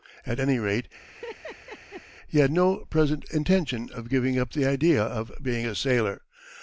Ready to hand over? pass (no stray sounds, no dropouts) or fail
fail